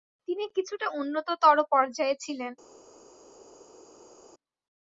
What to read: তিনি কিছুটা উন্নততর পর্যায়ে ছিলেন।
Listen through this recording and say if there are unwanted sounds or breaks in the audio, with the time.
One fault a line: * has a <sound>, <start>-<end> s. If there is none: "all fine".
all fine